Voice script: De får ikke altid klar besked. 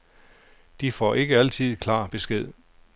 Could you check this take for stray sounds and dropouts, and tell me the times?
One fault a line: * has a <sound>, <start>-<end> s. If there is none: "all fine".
all fine